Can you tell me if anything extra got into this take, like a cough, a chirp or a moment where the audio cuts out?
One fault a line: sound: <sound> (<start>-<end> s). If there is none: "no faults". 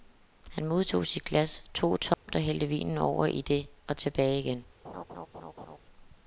sound: dropout (2.1-2.3 s)
sound: laugh (4.8-5.8 s)